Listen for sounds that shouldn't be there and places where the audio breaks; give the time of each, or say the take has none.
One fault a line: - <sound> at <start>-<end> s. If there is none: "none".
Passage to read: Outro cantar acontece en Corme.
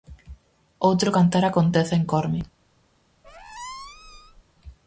- squeak at 3.2-4.4 s